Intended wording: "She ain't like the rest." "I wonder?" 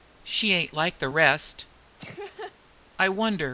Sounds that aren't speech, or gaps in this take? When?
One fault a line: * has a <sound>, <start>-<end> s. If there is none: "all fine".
* has a laugh, 2.0-2.6 s